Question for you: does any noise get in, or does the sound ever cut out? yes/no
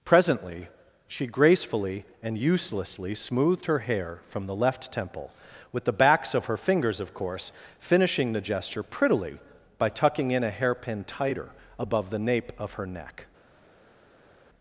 no